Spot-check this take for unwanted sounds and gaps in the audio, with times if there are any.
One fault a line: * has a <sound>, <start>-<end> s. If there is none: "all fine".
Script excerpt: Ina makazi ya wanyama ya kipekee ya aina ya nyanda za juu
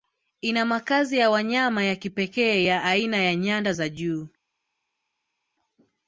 all fine